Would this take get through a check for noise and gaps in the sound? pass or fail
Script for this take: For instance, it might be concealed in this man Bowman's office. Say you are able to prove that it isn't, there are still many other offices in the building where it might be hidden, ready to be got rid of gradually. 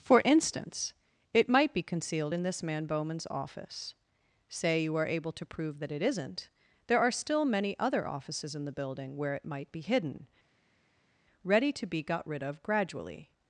pass